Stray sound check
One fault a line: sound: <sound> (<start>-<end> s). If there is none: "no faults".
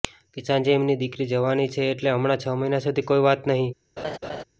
sound: laugh (4.0-4.4 s)